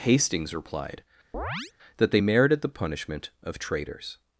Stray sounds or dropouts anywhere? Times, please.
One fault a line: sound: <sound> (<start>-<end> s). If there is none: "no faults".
sound: chirp (1.3-1.7 s)